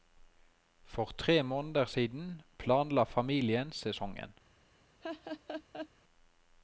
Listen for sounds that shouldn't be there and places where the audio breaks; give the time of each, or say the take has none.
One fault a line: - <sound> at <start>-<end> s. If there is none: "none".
- laugh at 5.0-5.9 s